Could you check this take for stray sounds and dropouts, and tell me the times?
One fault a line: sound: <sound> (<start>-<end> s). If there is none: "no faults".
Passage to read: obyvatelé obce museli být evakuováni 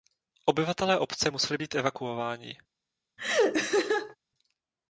sound: laugh (3.2-4.2 s)